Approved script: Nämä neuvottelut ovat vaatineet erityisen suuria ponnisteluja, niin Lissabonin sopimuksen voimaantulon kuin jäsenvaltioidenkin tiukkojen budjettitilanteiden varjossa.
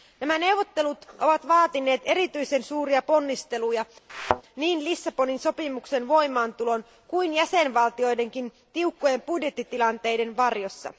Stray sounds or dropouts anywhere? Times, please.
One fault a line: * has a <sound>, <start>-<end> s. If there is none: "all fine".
* has a thud, 4.1-4.4 s